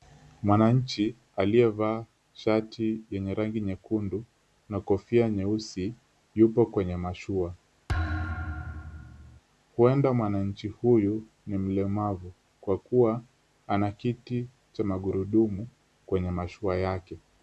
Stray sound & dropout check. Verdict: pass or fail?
fail